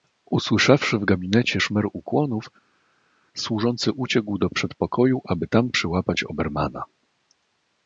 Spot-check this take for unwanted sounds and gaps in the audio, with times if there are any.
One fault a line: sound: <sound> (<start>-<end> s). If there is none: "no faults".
no faults